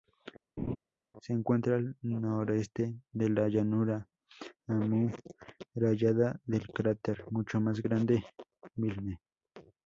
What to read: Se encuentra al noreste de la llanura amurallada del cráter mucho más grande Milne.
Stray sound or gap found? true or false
true